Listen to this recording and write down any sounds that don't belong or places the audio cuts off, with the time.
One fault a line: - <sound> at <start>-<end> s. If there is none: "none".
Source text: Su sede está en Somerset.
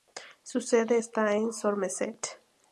none